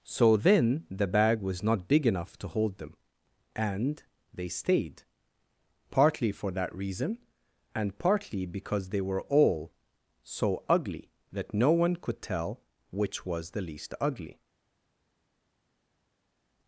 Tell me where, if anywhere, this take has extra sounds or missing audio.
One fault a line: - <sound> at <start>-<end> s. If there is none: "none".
none